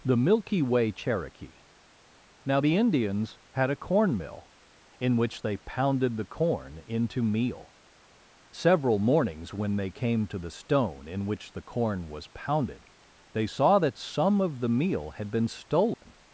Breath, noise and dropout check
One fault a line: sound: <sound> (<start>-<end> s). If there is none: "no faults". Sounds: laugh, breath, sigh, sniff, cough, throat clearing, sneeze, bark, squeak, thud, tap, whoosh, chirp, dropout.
sound: dropout (15.9-16.0 s)